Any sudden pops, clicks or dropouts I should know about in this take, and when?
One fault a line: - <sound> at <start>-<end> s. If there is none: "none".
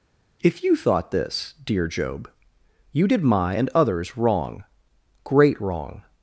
none